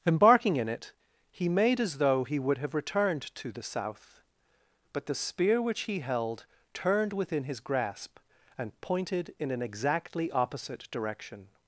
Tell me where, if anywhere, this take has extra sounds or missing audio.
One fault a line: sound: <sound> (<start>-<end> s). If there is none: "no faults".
no faults